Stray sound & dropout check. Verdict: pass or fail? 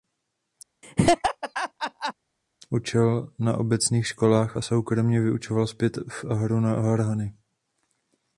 fail